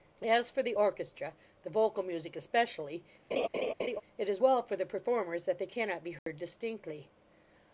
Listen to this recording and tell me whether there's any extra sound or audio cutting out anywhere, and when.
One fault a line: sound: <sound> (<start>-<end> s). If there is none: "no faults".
sound: laugh (3.3-4.0 s)
sound: dropout (6.2-6.3 s)